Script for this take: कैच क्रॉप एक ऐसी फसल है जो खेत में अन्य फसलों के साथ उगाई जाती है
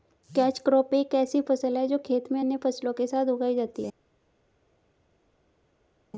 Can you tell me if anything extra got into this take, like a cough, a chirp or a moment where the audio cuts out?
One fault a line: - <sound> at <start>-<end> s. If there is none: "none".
none